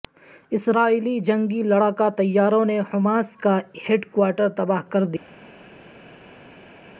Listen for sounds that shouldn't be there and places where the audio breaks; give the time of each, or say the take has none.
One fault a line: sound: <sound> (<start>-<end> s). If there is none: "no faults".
no faults